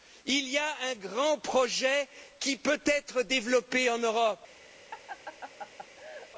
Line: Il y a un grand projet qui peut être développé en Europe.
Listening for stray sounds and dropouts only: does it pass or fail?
fail